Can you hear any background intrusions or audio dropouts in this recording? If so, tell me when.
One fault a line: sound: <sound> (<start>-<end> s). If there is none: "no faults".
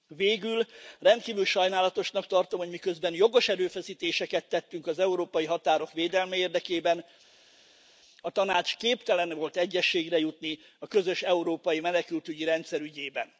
no faults